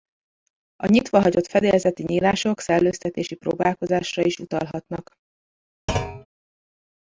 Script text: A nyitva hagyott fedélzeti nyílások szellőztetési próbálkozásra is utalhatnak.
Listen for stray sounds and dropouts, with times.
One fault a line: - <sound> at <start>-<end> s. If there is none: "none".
- thud at 5.9-6.3 s